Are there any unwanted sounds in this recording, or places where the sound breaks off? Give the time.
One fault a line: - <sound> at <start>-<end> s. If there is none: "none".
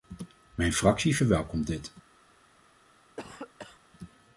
- cough at 3.2-3.8 s